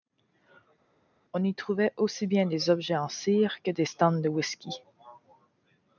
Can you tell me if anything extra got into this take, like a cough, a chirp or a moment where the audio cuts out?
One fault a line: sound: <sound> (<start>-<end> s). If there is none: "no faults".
no faults